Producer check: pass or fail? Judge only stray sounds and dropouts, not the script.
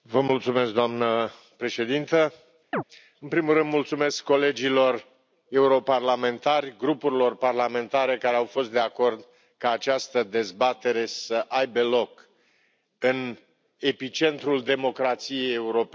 fail